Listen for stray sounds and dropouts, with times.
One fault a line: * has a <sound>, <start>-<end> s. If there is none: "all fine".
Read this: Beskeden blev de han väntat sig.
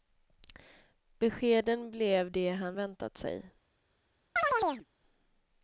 * has a chirp, 4.4-4.9 s